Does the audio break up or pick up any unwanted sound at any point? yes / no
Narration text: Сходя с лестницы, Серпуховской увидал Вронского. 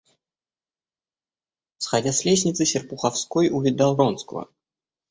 no